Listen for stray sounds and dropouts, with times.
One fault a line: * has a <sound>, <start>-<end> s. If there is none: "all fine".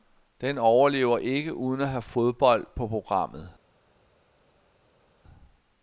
all fine